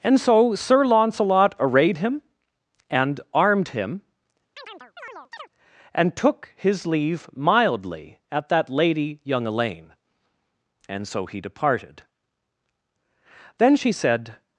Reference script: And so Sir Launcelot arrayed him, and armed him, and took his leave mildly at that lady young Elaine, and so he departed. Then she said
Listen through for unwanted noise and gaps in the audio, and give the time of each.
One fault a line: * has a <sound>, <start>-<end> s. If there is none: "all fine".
* has a chirp, 4.6-5.5 s